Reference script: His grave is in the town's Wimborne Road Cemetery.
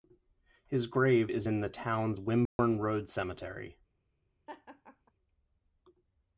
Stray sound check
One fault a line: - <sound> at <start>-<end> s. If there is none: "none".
- dropout at 2.5-2.6 s
- laugh at 4.5-5.1 s